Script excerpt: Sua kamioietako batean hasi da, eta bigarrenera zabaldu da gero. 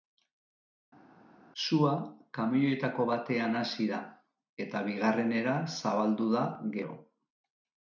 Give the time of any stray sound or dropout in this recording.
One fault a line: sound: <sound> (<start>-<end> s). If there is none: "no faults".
no faults